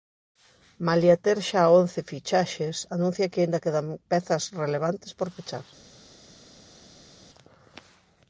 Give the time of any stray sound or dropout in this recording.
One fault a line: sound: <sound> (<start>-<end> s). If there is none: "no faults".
no faults